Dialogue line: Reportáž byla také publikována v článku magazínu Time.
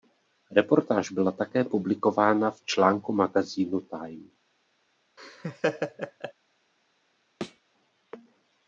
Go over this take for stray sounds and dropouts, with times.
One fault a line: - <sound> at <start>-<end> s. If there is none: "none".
- laugh at 5.2-6.3 s
- thud at 7.4-7.6 s